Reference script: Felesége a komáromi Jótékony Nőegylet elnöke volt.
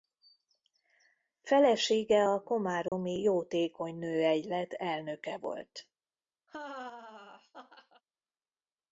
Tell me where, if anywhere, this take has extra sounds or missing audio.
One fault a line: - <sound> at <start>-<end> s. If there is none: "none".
- dropout at 2.9-2.9 s
- laugh at 6.5-8.0 s